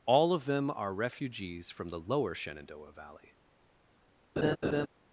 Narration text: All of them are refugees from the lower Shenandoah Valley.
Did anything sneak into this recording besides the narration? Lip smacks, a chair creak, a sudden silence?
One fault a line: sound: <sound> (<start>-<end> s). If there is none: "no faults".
sound: laugh (4.4-4.9 s)